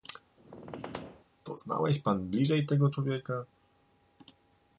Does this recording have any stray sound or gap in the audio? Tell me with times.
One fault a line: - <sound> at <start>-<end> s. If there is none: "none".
- squeak at 0.4-1.3 s